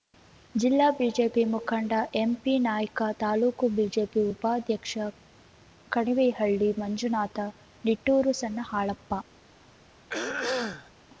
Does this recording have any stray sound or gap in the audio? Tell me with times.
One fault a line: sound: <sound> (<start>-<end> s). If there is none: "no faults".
sound: throat clearing (10.1-10.9 s)